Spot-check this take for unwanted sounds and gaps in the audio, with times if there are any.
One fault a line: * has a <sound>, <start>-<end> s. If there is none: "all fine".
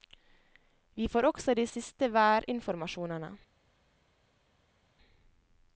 all fine